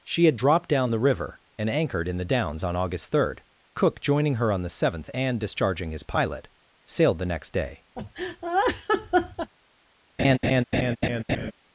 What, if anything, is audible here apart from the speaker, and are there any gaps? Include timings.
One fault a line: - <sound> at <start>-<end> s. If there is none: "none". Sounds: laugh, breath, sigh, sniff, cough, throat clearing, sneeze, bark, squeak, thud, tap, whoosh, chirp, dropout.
- laugh at 8.0-9.5 s
- laugh at 10.2-11.5 s